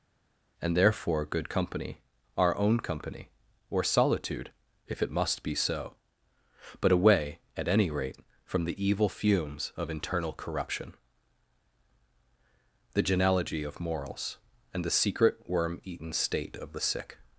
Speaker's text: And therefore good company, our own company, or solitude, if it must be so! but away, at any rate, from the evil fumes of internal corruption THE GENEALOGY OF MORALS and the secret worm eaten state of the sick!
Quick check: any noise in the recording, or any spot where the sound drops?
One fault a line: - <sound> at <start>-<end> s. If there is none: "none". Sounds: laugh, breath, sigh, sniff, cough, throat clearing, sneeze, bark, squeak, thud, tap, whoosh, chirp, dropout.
none